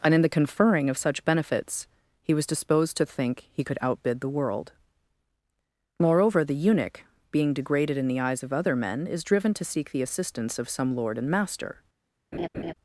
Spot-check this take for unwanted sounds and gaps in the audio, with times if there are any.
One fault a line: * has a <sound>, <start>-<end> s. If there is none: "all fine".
* has a laugh, 12.3-12.7 s